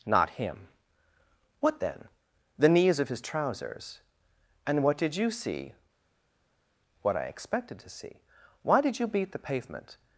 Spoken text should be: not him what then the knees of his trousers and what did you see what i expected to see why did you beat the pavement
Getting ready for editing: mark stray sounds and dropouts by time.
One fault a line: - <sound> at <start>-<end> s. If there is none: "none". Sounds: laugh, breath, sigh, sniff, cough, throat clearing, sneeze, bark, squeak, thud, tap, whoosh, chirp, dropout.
none